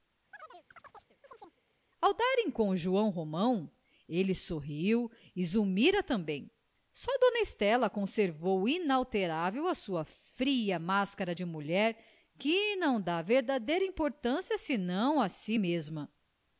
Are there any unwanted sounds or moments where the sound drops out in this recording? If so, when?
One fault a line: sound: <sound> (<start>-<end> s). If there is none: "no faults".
sound: chirp (0.3-1.6 s)